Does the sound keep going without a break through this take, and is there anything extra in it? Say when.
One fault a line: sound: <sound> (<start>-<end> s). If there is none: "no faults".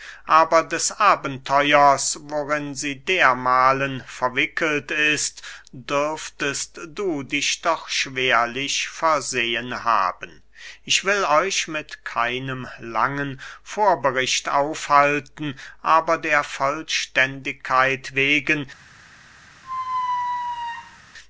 sound: squeak (19.6-21.0 s)